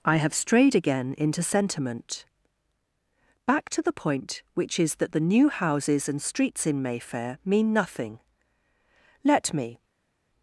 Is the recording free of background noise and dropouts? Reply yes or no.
yes